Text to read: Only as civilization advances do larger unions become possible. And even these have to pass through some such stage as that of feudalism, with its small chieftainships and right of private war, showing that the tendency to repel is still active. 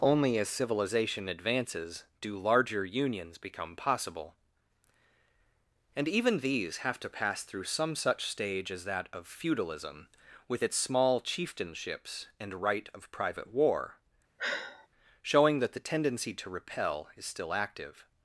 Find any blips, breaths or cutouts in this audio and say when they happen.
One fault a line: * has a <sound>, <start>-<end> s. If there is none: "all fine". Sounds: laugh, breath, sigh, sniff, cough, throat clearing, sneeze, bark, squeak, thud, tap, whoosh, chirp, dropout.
* has a sigh, 14.4-14.9 s